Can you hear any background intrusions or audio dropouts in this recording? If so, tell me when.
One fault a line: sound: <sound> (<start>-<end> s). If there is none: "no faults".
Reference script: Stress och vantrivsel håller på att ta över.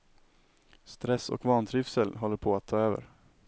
no faults